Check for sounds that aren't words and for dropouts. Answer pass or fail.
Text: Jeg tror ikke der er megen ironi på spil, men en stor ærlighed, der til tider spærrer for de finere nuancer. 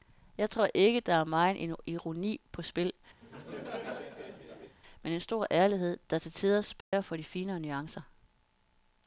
fail